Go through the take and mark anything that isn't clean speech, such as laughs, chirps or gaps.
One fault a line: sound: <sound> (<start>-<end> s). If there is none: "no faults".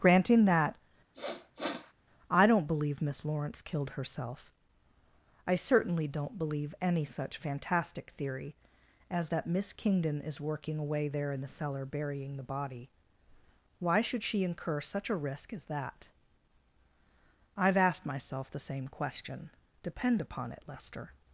sound: sniff (1.1-1.9 s)